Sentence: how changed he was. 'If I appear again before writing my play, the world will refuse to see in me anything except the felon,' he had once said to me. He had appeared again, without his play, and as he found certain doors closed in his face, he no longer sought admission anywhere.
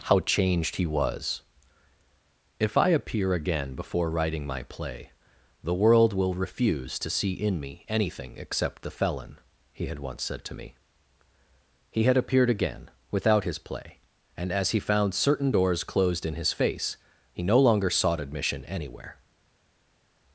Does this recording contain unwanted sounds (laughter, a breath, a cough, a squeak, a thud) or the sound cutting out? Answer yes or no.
no